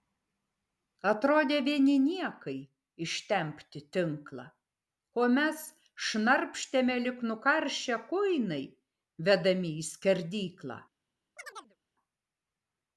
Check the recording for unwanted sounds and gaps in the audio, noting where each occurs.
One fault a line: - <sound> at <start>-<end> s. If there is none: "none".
- chirp at 11.4-11.8 s